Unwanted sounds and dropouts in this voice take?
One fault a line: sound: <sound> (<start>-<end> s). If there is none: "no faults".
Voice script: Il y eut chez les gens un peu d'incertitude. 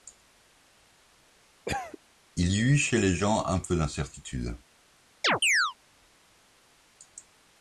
sound: cough (1.6-2.0 s)
sound: chirp (5.2-5.7 s)